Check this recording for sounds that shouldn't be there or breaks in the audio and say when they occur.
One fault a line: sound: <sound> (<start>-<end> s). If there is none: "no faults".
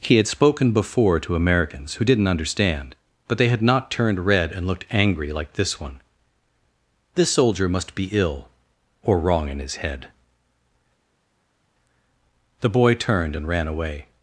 no faults